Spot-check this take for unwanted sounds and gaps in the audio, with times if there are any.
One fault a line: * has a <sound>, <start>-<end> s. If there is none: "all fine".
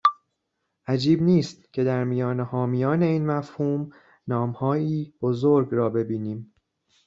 all fine